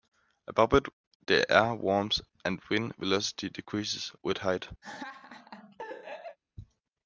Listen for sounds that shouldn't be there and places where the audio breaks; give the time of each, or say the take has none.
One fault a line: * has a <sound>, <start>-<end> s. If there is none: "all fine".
* has a laugh, 4.8-6.4 s